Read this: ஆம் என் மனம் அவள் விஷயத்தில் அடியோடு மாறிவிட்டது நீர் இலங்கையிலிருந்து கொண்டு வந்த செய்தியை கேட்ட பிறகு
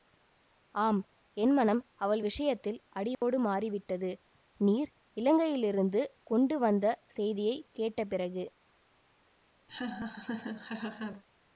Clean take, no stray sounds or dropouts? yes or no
no